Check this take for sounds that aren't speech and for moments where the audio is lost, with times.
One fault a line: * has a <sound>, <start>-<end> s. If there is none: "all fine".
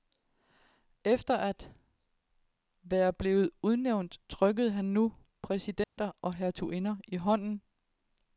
* has a dropout, 5.8-6.0 s